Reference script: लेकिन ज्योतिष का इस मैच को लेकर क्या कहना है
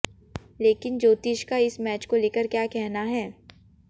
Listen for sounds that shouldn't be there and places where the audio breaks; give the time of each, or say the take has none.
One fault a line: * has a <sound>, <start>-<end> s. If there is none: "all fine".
all fine